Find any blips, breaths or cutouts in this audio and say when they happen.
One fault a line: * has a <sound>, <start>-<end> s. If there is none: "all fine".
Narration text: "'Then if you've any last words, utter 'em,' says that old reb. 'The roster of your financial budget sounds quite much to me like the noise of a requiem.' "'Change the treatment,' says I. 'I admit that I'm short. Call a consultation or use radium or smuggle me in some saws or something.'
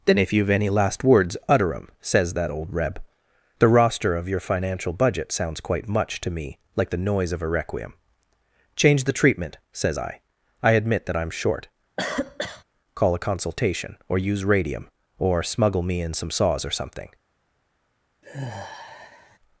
* has a cough, 12.0-12.6 s
* has a sigh, 18.2-19.4 s